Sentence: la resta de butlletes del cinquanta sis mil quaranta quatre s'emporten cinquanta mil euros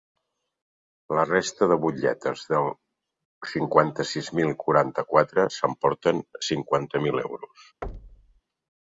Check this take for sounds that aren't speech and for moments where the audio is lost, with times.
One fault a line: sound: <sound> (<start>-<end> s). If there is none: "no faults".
sound: thud (7.8-8.4 s)